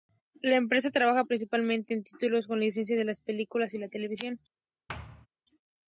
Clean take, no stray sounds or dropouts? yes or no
no